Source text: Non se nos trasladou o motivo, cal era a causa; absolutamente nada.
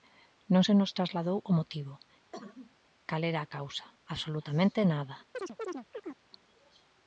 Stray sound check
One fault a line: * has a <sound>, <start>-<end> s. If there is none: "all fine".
* has a cough, 2.3-2.7 s
* has a chirp, 5.3-6.2 s